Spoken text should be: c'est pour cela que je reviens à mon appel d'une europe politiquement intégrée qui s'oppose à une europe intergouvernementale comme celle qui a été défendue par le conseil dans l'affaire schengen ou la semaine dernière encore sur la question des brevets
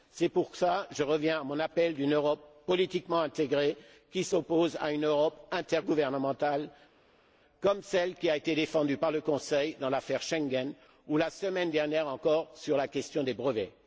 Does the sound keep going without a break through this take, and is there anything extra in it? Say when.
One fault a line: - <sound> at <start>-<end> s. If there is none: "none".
none